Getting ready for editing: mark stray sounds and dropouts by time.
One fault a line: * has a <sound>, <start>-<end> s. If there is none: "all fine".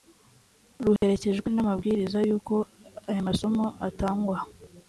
* has a dropout, 1.0-1.0 s